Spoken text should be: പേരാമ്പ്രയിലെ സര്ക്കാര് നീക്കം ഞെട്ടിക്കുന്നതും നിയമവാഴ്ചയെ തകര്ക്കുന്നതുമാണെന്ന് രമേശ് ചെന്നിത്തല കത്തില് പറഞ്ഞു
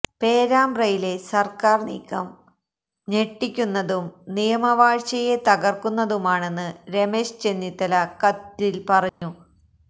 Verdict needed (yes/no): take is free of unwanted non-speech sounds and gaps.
no